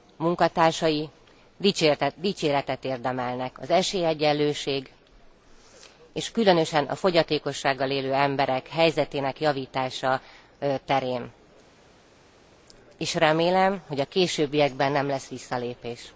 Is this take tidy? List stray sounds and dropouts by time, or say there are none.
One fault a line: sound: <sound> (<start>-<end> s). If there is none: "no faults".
no faults